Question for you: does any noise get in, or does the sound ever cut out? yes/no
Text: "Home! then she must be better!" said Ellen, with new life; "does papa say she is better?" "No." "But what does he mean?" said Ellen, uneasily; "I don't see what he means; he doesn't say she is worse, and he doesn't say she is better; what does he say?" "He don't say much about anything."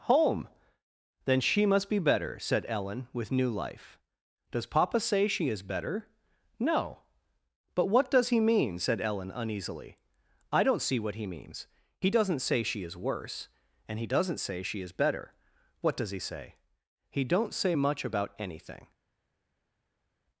no